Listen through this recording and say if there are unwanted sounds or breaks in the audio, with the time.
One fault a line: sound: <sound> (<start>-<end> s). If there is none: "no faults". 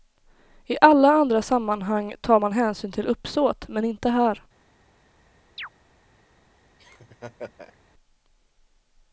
sound: chirp (5.6-5.7 s)
sound: laugh (6.8-7.8 s)